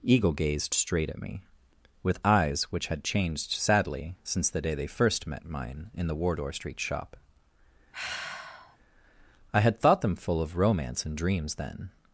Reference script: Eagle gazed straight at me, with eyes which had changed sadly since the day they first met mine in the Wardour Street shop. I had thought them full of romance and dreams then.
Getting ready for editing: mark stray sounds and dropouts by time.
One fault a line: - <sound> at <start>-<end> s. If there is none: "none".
- sigh at 7.9-8.8 s